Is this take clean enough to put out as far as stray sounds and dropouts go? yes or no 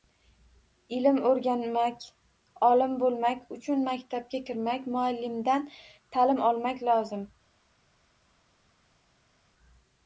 yes